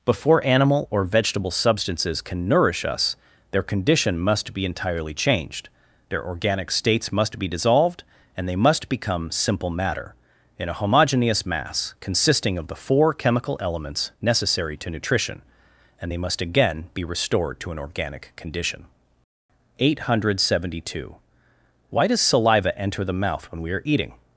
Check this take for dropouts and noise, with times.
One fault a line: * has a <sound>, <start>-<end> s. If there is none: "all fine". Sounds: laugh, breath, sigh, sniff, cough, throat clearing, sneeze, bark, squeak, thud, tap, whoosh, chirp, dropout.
all fine